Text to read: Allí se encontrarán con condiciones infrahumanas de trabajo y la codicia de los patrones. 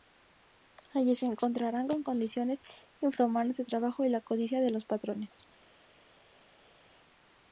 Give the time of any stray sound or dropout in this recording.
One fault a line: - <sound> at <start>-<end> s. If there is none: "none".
none